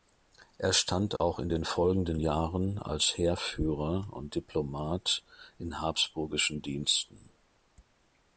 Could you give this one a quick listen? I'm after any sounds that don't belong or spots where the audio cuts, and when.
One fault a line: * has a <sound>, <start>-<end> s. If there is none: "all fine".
* has a dropout, 1.2-1.2 s